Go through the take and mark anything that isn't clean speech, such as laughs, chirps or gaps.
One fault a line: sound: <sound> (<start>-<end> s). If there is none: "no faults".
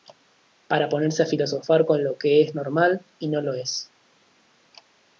no faults